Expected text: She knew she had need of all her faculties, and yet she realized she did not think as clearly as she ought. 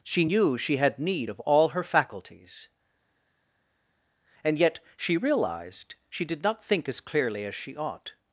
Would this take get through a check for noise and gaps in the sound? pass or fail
pass